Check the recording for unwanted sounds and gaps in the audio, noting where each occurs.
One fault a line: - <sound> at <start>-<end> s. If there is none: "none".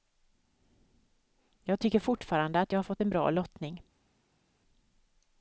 none